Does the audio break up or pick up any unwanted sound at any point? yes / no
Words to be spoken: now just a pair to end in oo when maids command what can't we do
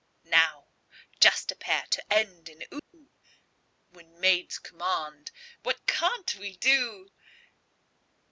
yes